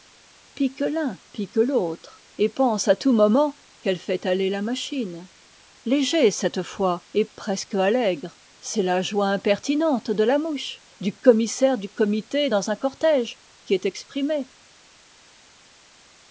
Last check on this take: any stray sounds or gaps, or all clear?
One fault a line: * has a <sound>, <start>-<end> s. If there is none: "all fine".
all fine